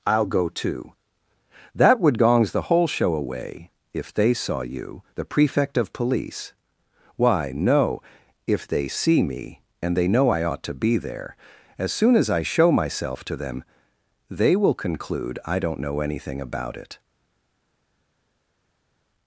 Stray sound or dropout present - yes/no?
no